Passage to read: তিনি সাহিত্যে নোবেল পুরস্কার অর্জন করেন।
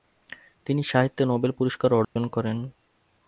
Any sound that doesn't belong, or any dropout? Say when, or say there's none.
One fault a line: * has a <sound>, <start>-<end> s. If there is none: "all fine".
* has a dropout, 2.0-2.2 s